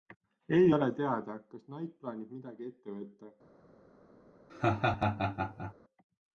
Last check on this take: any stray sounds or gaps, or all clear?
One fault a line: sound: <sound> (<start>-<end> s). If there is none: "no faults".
sound: laugh (4.5-5.7 s)